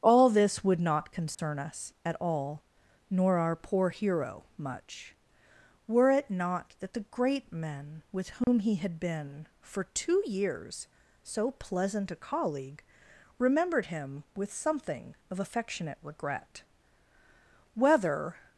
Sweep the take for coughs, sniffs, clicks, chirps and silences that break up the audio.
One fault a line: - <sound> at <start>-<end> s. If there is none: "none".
- dropout at 1.3-1.4 s
- dropout at 8.4-8.5 s